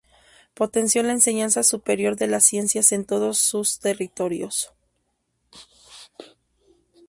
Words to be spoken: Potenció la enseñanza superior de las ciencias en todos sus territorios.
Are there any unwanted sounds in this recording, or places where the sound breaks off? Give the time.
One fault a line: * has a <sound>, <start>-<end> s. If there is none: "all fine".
all fine